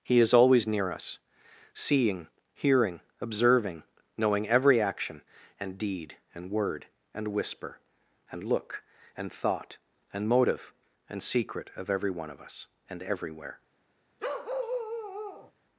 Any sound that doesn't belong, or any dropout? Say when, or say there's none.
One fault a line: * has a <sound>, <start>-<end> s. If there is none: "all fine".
* has a bark, 14.2-15.5 s